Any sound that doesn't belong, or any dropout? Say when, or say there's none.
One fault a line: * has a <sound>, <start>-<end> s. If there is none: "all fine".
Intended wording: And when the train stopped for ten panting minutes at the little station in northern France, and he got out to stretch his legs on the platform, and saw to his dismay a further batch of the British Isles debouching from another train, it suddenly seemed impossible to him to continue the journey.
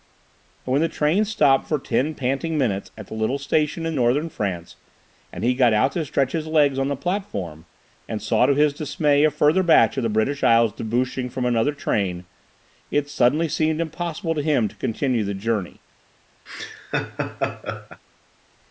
* has a laugh, 16.5-18.0 s